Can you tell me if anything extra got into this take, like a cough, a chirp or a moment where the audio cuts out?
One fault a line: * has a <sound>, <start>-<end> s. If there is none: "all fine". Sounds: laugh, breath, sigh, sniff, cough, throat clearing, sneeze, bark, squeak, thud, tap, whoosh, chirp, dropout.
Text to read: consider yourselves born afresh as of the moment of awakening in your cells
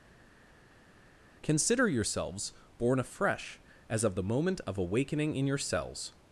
all fine